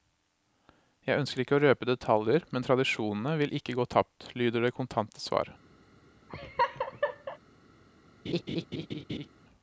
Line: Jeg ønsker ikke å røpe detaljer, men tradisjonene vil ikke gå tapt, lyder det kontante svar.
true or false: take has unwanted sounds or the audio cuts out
true